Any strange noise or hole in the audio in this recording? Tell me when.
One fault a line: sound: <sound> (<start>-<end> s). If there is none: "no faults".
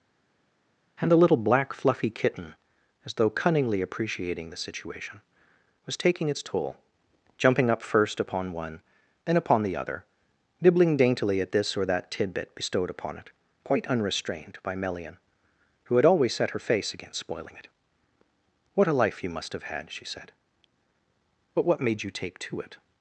no faults